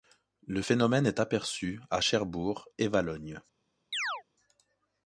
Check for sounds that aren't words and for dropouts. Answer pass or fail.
fail